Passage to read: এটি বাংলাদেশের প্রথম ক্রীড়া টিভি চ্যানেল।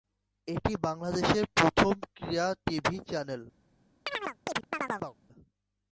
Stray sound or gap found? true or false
true